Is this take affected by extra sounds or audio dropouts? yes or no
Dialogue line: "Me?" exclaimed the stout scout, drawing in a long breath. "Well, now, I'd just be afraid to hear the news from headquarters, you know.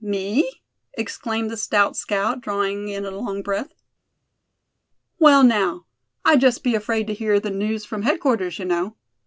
no